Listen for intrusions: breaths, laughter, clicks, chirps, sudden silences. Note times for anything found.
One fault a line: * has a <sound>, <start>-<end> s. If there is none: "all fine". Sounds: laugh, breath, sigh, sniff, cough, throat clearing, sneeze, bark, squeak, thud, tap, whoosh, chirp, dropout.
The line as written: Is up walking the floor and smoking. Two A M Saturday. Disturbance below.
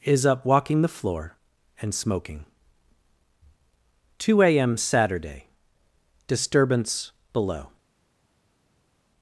all fine